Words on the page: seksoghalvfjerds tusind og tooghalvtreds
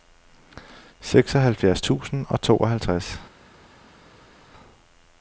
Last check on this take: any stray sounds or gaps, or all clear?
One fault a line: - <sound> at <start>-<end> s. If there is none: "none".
none